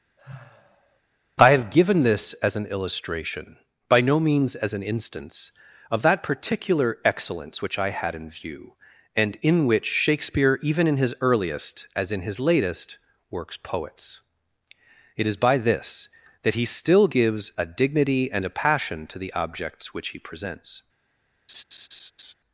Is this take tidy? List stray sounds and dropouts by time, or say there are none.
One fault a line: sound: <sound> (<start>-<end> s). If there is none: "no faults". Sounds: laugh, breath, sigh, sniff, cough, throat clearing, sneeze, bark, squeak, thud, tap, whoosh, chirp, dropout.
sound: sigh (0.2-1.0 s)
sound: laugh (21.5-22.3 s)